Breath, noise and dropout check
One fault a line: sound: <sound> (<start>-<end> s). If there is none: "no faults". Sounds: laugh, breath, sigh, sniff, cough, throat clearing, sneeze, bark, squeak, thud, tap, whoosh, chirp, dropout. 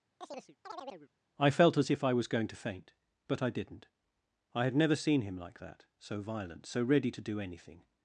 sound: chirp (0.2-1.1 s)